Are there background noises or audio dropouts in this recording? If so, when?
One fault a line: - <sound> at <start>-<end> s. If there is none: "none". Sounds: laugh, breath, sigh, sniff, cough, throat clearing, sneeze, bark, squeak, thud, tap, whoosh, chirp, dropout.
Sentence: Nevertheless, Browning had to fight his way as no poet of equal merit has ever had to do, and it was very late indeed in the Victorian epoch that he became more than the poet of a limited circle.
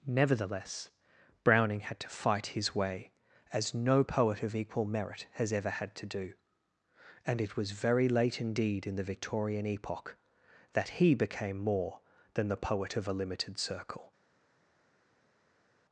none